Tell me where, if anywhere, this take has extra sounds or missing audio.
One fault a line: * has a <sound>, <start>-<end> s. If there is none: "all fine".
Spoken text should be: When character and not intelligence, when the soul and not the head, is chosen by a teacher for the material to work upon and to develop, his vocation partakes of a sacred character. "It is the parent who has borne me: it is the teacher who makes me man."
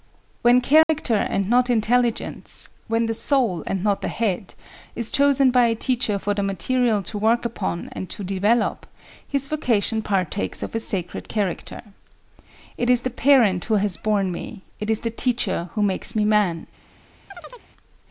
* has a dropout, 0.8-0.9 s
* has a chirp, 17.3-17.7 s